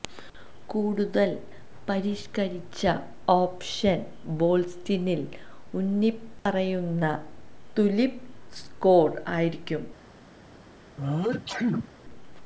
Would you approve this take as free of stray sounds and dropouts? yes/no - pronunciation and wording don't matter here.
no